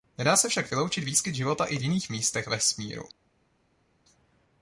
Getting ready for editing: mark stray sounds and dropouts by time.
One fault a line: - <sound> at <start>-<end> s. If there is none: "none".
none